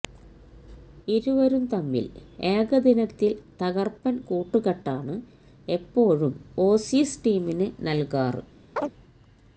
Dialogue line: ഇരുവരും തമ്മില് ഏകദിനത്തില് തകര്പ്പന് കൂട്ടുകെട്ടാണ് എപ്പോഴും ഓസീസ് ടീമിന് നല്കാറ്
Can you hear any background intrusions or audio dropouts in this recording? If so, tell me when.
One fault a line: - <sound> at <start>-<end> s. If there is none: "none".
- chirp at 8.8-8.9 s